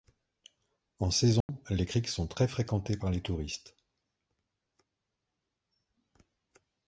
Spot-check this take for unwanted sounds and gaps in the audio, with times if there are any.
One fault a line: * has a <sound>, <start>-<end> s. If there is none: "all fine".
* has a dropout, 1.4-1.5 s